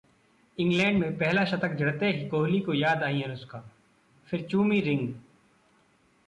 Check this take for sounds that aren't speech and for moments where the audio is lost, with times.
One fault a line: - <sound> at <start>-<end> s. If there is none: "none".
none